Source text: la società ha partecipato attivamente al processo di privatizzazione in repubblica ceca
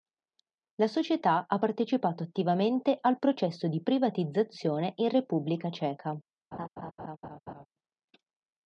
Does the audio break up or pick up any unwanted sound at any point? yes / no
yes